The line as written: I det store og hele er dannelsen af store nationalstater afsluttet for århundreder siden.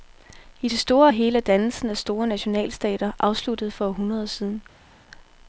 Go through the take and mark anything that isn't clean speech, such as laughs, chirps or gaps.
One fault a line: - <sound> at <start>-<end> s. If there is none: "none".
none